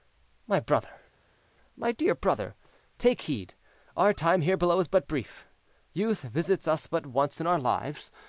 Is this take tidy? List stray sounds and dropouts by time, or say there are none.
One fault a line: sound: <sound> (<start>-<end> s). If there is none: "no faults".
no faults